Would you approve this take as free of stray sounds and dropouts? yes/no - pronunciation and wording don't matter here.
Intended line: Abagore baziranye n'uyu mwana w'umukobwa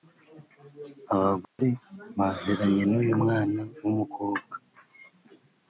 no